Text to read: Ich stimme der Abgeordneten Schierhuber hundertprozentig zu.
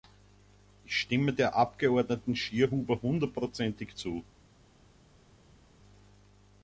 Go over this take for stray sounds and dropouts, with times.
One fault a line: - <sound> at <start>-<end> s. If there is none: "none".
none